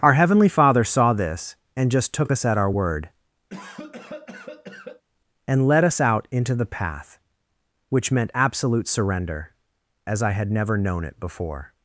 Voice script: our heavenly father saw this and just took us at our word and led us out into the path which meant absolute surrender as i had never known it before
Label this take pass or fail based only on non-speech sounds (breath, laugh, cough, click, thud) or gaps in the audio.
fail